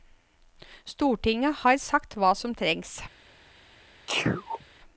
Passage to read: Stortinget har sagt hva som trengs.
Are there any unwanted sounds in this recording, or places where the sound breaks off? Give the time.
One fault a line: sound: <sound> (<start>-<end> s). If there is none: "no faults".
sound: sneeze (4.1-4.7 s)